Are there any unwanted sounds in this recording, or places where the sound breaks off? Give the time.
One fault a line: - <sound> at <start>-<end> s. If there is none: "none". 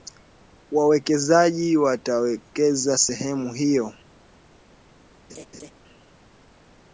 - laugh at 5.3-5.7 s